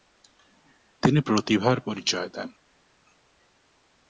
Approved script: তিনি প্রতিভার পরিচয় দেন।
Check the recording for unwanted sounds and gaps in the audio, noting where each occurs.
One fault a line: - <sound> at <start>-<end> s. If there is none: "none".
none